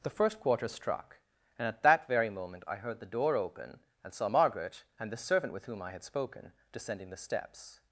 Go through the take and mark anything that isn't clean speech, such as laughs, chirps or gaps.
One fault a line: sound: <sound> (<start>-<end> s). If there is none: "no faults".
no faults